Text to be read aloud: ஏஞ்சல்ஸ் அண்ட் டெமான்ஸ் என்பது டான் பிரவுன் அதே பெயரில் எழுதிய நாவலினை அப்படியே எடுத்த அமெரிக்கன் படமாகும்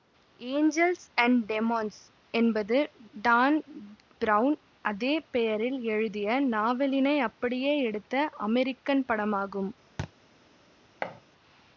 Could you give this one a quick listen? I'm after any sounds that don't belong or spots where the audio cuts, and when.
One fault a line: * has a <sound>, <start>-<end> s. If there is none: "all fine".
* has a thud, 10.0-10.1 s
* has a thud, 11.0-11.2 s